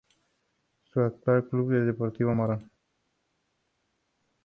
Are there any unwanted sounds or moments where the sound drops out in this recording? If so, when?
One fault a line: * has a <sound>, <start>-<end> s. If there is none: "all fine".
all fine